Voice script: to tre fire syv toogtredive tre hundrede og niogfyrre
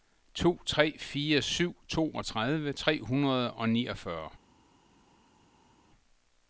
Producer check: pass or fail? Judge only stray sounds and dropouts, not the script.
pass